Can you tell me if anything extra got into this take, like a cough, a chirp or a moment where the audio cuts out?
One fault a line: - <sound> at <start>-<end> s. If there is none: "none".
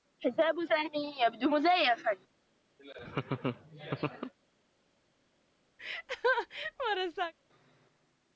- laugh at 2.8-4.3 s
- laugh at 5.8-7.3 s